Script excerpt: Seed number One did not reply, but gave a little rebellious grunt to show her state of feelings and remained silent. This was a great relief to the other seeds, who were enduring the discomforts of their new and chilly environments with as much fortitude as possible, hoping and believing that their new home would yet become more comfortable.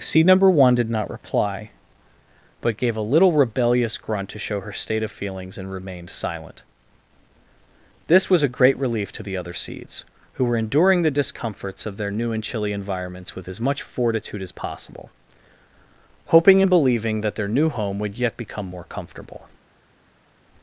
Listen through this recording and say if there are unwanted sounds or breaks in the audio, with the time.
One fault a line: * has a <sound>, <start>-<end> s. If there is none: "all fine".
all fine